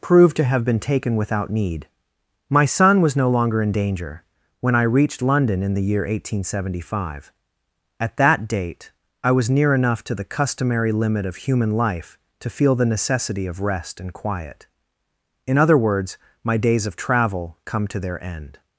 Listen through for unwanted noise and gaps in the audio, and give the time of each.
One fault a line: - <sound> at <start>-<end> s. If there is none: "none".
none